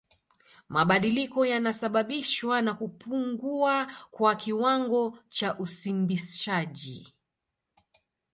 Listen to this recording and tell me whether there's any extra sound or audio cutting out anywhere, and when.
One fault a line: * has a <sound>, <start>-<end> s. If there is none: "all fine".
all fine